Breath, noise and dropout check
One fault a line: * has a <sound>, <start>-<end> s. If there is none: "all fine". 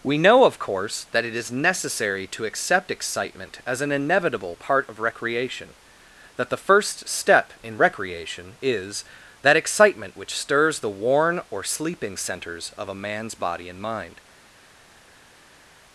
all fine